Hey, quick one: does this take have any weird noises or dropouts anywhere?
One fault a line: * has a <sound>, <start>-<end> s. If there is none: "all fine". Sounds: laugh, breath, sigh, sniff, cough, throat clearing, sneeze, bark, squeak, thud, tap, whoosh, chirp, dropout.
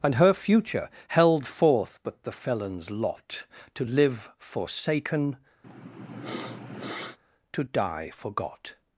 * has a sniff, 5.6-7.2 s